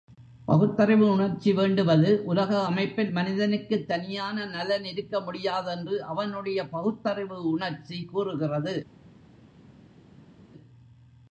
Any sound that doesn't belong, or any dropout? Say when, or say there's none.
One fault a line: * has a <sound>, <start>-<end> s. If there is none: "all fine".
all fine